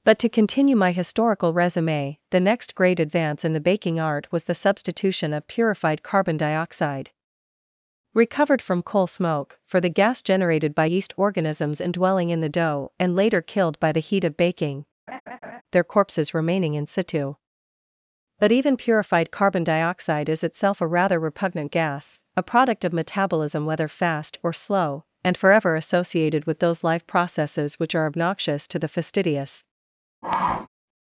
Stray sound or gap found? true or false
true